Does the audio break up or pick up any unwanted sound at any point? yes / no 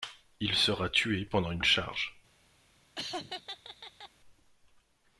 yes